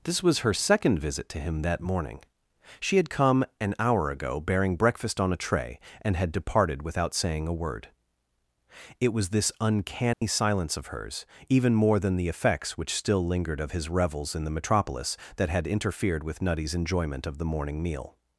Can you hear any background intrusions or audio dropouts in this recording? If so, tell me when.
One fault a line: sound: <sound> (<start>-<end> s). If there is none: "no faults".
sound: dropout (10.1-10.2 s)